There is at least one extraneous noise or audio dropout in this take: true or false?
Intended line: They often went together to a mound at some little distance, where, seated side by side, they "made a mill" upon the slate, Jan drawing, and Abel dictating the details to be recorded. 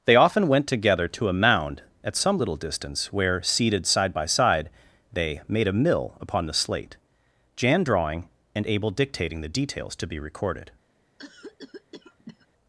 true